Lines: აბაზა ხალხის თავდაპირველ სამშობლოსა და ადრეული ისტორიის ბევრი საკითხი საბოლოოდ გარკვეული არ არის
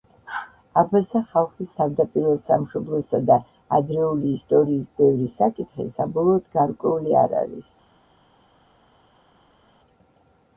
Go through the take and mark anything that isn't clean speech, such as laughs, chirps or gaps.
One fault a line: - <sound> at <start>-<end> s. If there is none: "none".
none